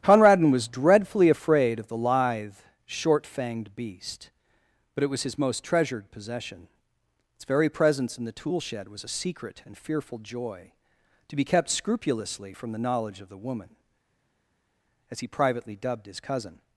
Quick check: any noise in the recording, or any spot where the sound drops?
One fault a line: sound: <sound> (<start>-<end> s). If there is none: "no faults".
no faults